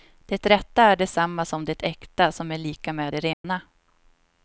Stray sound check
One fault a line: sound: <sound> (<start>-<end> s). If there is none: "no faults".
sound: dropout (3.3-3.4 s)